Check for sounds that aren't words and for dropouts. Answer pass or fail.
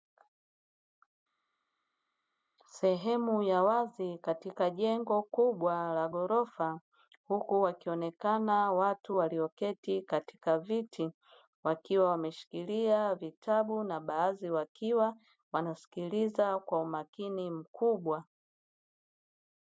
pass